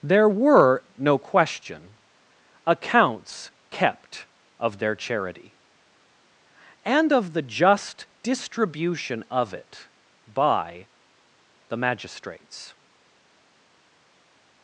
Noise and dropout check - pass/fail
pass